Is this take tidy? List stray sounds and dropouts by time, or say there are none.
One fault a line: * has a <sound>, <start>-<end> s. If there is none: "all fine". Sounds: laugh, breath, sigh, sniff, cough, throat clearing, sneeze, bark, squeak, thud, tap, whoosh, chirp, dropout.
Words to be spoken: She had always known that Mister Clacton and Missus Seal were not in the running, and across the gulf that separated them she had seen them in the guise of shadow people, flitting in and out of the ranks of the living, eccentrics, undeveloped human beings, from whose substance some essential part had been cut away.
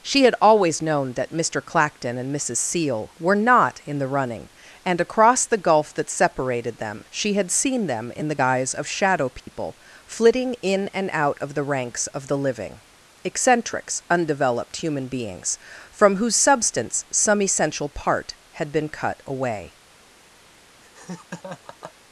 * has a dropout, 9.4-9.5 s
* has a laugh, 20.8-21.9 s